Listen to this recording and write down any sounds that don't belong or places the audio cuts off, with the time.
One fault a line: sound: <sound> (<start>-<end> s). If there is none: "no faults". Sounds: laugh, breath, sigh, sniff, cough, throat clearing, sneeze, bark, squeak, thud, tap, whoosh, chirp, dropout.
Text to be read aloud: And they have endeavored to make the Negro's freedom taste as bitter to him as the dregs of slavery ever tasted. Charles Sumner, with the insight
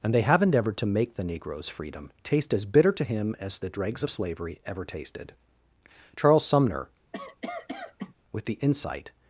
sound: cough (7.1-8.1 s)